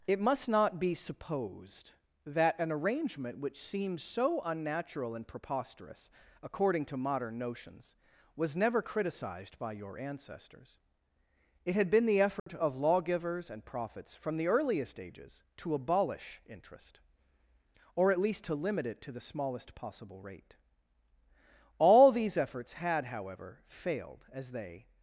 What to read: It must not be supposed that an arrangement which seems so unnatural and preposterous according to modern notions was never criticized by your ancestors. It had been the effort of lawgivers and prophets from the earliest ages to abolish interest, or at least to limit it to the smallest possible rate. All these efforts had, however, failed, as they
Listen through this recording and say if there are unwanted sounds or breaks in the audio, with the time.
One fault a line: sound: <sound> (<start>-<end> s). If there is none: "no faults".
sound: dropout (12.4-12.5 s)